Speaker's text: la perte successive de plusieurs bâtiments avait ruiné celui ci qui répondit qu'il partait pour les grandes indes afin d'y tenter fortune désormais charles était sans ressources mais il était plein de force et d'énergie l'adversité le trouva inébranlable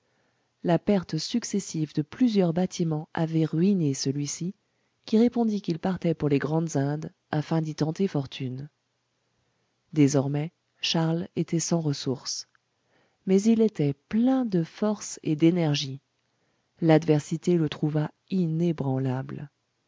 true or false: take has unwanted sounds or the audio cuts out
false